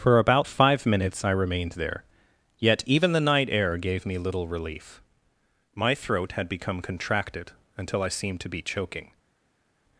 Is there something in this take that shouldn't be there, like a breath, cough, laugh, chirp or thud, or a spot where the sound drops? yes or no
no